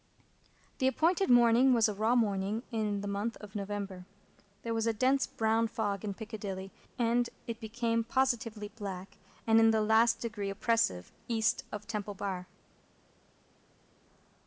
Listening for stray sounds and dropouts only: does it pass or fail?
pass